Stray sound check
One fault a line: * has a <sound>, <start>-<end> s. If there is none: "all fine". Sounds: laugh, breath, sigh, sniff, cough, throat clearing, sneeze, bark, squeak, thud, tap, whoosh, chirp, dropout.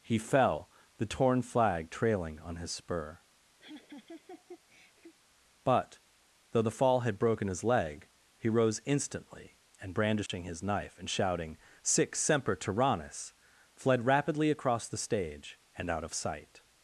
* has a laugh, 3.6-5.1 s
* has a dropout, 10.3-10.3 s